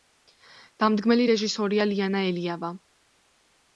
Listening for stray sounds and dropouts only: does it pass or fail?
pass